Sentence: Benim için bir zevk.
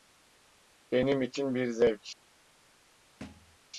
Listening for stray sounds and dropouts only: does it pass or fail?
fail